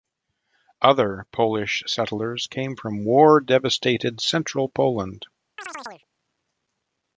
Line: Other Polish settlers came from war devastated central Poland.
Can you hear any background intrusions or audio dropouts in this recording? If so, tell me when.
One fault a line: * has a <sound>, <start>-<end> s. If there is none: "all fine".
* has a chirp, 5.6-6.1 s